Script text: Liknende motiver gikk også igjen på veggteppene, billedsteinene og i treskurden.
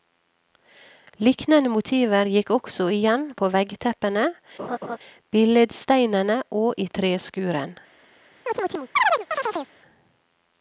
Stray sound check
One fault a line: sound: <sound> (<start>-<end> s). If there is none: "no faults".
sound: laugh (4.6-5.0 s)
sound: chirp (8.5-9.7 s)